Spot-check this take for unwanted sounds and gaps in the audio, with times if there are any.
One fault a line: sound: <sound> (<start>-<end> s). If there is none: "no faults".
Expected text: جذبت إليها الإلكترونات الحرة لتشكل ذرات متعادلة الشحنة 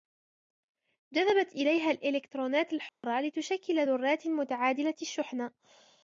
sound: dropout (2.9-3.0 s)